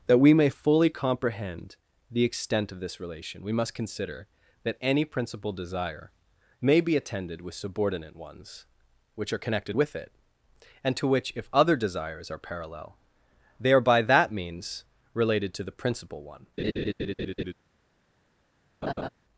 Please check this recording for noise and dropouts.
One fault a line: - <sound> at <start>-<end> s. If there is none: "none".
- laugh at 16.6-17.5 s
- laugh at 18.8-19.1 s